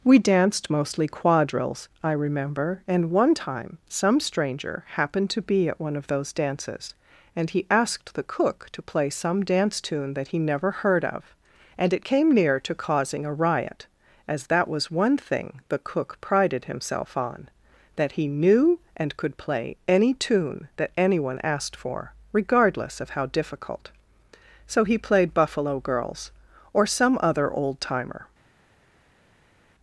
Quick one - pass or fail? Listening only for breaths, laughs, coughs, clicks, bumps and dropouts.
pass